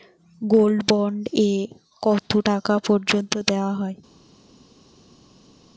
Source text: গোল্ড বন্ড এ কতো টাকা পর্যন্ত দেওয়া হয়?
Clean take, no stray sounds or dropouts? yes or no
yes